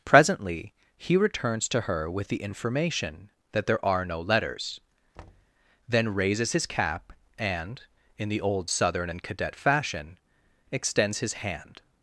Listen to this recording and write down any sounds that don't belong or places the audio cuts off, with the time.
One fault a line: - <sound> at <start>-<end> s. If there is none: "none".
- thud at 5.1-5.5 s